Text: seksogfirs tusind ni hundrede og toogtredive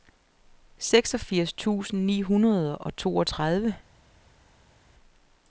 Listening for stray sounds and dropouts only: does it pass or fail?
pass